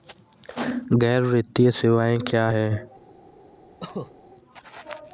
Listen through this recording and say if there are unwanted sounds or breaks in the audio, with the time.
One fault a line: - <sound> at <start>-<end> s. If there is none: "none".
- cough at 3.8-4.1 s